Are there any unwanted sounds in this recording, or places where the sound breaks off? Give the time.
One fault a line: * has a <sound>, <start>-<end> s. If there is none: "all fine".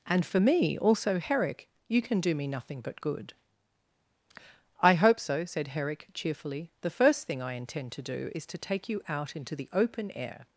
all fine